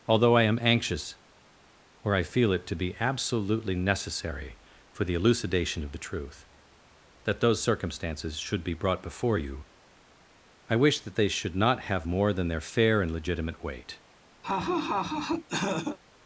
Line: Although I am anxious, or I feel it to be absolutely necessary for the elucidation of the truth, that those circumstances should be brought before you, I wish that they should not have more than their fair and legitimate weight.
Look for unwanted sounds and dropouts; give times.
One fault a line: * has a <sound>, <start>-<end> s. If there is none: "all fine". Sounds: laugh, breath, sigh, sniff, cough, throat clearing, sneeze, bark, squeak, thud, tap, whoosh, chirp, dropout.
* has a laugh, 14.4-16.0 s